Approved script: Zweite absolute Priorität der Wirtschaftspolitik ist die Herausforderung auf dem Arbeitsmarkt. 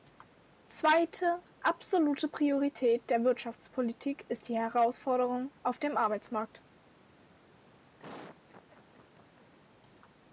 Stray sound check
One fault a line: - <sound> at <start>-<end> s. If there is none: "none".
- laugh at 8.0-9.5 s